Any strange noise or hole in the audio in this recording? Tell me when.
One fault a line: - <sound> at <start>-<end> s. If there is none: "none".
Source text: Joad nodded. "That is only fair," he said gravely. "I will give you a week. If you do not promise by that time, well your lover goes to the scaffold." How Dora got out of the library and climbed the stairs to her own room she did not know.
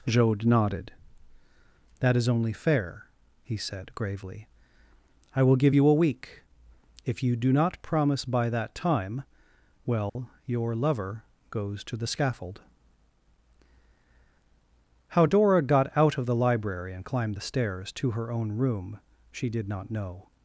- dropout at 10.1-10.2 s